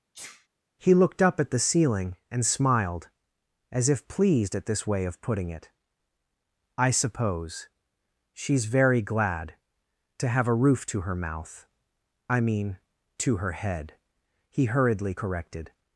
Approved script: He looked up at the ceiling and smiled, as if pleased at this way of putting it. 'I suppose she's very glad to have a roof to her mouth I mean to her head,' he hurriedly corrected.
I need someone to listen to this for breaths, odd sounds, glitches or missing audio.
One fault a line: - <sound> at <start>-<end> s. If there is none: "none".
- sneeze at 0.1-0.5 s